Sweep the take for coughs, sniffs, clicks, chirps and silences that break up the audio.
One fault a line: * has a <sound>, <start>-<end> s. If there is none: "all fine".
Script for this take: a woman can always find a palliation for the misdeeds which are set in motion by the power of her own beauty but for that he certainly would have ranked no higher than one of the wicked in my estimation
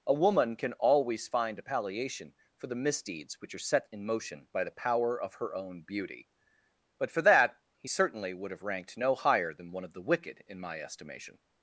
all fine